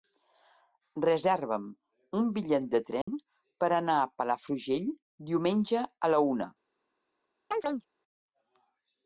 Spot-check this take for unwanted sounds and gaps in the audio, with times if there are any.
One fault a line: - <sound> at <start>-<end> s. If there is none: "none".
- dropout at 3.0-3.1 s
- chirp at 7.5-7.9 s